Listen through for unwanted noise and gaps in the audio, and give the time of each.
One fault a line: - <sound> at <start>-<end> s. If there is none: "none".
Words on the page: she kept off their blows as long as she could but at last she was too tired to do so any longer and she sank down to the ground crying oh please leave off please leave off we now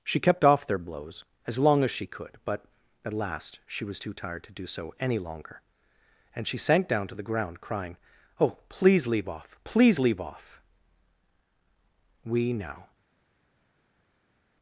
none